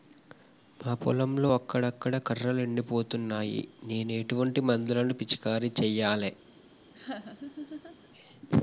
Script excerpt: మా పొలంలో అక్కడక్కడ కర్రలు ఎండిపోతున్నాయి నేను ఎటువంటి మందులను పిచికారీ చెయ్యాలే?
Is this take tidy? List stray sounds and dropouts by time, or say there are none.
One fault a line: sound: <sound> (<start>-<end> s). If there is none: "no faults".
sound: laugh (6.9-8.1 s)